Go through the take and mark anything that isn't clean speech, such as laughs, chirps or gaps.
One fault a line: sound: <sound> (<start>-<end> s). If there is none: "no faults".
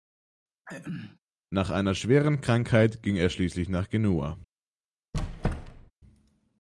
sound: throat clearing (0.7-1.2 s)
sound: squeak (5.1-5.9 s)